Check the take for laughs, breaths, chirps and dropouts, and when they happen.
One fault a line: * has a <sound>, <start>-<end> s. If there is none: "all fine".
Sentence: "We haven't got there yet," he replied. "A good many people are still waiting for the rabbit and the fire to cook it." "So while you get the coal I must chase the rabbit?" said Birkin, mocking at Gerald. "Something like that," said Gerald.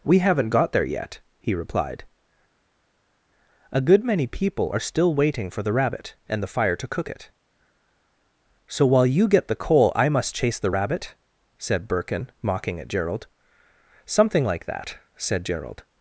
all fine